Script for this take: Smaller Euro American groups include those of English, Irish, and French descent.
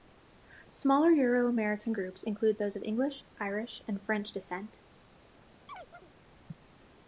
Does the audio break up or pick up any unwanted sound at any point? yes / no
yes